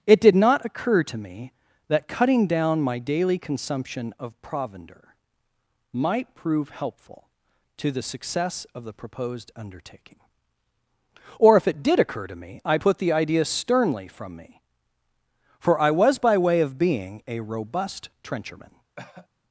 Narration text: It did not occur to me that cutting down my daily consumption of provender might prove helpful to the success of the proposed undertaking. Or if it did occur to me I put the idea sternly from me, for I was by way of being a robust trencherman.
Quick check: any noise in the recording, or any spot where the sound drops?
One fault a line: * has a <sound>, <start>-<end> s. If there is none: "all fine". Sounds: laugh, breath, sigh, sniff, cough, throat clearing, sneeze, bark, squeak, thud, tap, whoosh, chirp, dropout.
* has a cough, 19.0-19.3 s